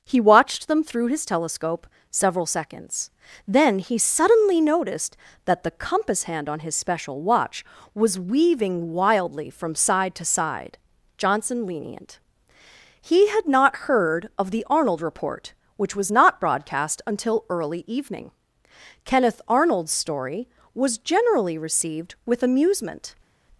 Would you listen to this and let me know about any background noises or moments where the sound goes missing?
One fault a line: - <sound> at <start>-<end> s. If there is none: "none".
none